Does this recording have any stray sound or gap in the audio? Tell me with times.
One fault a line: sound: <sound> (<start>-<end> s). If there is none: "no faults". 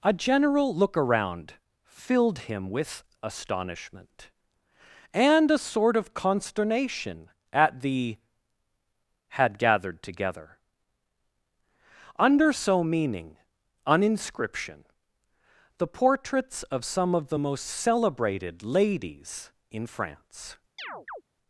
sound: chirp (20.8-21.2 s)